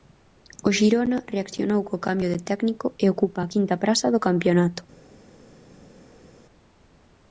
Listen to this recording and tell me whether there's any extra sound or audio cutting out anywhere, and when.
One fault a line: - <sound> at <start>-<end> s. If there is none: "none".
none